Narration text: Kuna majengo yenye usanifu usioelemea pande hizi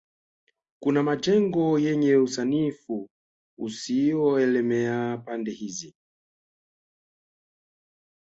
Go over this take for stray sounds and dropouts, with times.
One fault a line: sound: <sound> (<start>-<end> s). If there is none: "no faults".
no faults